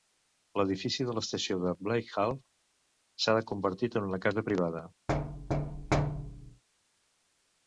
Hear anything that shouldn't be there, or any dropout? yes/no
yes